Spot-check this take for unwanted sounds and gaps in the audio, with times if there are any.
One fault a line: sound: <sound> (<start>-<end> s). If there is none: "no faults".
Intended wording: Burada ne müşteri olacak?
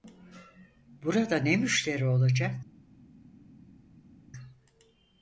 no faults